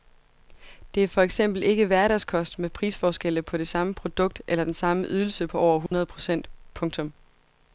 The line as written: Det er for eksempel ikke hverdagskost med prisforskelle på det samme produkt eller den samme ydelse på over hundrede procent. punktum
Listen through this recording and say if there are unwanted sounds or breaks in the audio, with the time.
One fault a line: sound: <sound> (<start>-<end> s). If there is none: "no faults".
sound: dropout (5.9-5.9 s)